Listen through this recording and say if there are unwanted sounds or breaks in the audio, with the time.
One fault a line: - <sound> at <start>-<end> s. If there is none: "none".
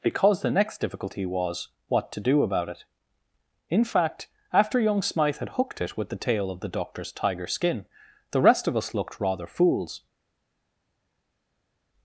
none